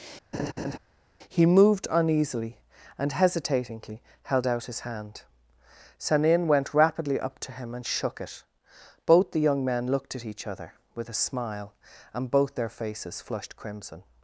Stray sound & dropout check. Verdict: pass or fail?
fail